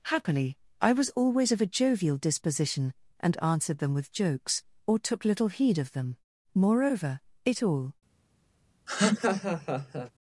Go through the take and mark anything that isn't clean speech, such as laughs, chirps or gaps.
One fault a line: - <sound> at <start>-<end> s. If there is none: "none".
- laugh at 8.9-10.1 s